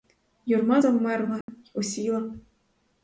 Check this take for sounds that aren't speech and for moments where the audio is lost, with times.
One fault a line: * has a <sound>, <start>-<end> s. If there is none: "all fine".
* has a dropout, 1.4-1.5 s